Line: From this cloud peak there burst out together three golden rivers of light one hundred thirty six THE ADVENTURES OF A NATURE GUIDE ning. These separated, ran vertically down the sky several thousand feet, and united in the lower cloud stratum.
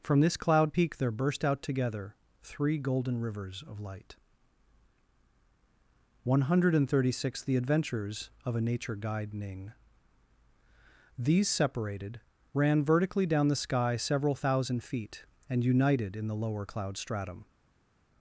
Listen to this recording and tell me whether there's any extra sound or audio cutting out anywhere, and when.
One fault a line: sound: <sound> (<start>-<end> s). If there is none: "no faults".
no faults